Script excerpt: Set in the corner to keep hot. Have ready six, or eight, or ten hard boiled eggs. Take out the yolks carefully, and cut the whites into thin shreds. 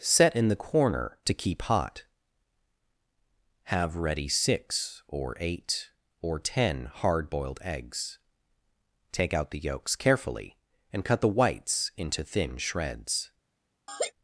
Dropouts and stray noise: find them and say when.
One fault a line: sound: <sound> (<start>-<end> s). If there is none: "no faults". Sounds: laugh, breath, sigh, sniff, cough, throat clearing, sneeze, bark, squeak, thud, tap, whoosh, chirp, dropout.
sound: laugh (13.9-14.1 s)